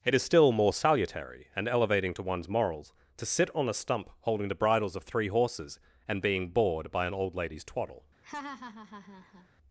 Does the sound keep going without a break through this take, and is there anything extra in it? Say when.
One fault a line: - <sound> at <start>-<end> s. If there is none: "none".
- laugh at 8.2-9.5 s